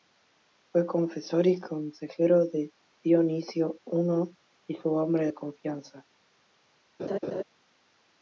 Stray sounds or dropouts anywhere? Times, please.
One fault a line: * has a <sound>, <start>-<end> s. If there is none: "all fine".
* has a laugh, 7.0-7.4 s